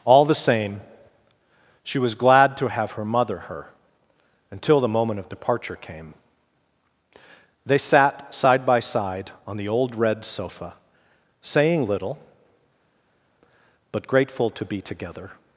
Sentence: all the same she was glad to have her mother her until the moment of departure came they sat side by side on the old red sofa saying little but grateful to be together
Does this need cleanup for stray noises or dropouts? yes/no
no